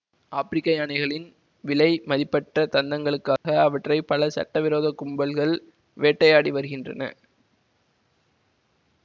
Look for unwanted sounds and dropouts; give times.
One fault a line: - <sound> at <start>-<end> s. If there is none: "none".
- dropout at 3.4-3.4 s